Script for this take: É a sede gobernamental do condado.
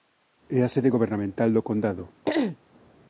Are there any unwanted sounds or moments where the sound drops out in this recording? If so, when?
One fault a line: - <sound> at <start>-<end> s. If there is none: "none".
- throat clearing at 2.2-2.6 s